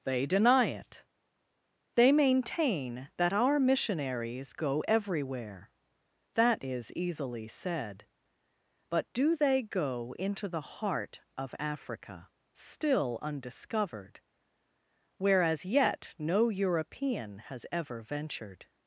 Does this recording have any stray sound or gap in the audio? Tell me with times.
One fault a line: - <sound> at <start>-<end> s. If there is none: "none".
none